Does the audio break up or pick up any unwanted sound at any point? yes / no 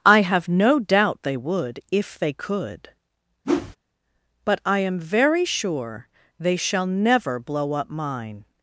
yes